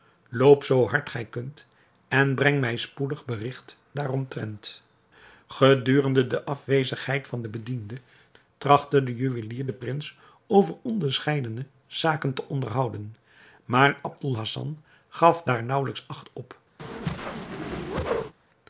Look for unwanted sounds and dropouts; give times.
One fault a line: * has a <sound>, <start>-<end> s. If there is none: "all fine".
* has a whoosh, 16.8-18.3 s